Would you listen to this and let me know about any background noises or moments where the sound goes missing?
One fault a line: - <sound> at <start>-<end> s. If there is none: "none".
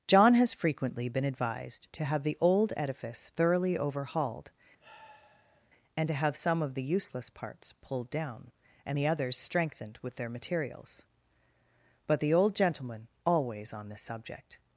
- sigh at 4.8-5.7 s